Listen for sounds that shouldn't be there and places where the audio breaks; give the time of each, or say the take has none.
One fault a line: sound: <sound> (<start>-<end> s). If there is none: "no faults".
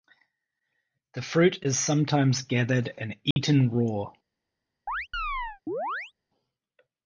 sound: dropout (3.3-3.4 s)
sound: chirp (4.9-6.1 s)